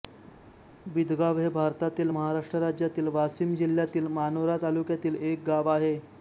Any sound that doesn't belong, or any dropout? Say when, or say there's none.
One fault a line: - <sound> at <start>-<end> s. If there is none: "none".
none